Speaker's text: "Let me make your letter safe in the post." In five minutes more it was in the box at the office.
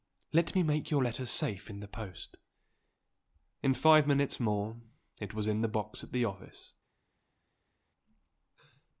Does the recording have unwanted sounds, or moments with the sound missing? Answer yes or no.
no